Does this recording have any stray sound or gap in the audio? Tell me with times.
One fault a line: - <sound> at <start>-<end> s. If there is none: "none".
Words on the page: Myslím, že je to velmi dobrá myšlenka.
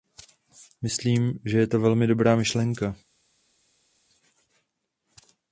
none